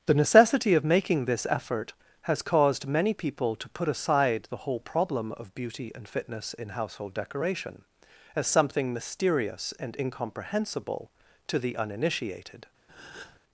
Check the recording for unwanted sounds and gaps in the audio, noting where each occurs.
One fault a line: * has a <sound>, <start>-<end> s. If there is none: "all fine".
* has a breath, 12.9-13.4 s